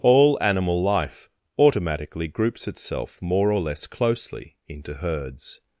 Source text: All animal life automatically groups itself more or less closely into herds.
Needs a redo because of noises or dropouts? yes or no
no